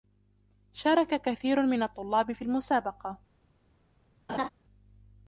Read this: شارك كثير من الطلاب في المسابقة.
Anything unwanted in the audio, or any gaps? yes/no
yes